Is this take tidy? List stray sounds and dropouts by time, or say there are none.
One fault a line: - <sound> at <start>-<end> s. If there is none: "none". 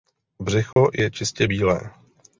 - dropout at 0.7-0.8 s